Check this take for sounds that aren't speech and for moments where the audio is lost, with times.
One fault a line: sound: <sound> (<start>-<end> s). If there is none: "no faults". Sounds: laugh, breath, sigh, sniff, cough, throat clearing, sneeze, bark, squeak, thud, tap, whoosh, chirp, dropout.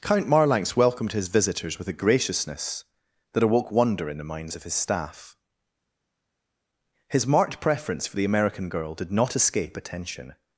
no faults